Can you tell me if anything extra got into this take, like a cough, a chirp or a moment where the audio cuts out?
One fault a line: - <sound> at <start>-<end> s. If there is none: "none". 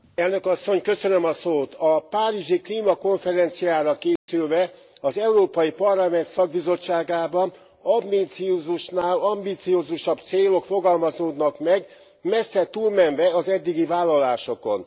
- dropout at 4.2-4.3 s